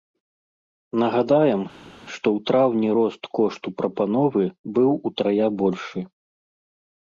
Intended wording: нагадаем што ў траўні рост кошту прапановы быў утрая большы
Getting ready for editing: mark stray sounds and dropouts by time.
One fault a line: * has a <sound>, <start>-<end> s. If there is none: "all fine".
all fine